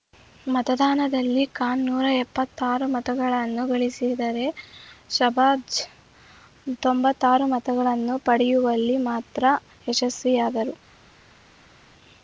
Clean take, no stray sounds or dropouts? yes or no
yes